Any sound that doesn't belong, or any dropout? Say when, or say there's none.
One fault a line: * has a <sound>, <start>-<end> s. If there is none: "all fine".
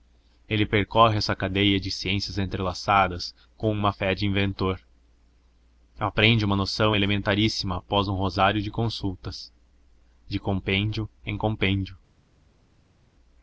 all fine